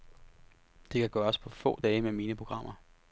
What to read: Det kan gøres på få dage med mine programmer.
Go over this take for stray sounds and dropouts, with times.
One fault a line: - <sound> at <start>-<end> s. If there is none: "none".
none